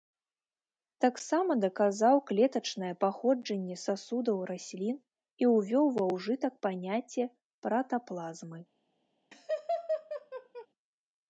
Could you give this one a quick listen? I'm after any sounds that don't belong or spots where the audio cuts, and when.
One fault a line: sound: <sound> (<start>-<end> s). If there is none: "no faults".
sound: laugh (9.3-10.7 s)